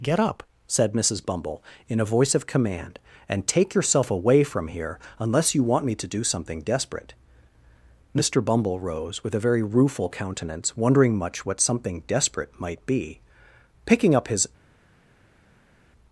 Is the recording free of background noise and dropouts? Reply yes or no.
yes